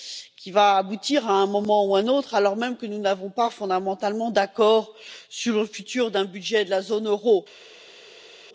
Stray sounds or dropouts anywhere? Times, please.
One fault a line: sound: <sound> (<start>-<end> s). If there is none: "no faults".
no faults